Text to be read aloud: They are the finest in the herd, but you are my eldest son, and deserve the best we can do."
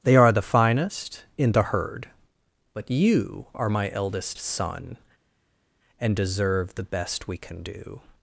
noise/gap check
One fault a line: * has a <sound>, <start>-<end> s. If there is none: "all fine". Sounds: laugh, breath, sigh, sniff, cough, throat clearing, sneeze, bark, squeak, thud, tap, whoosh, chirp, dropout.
all fine